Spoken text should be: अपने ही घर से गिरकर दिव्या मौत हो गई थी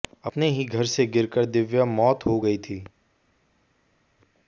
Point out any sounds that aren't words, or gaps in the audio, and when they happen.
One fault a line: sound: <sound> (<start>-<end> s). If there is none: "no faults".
no faults